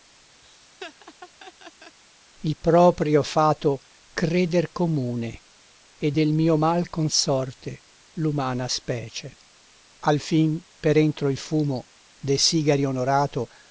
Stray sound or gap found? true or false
true